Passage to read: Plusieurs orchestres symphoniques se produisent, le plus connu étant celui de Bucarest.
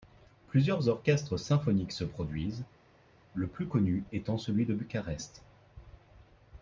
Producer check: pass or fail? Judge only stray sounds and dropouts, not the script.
pass